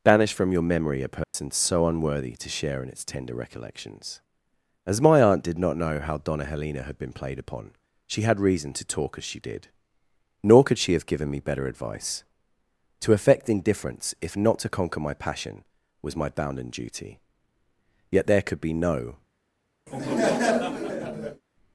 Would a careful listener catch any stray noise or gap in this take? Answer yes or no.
yes